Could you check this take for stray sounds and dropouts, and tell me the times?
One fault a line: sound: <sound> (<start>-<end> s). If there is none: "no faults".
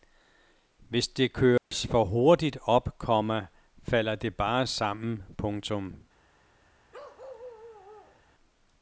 sound: dropout (1.6-1.7 s)
sound: bark (6.9-8.2 s)